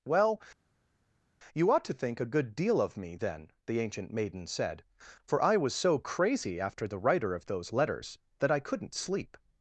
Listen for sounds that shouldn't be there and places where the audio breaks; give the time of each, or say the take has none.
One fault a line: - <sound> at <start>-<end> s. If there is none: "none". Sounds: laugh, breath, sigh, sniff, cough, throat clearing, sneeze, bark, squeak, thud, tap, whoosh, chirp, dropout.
none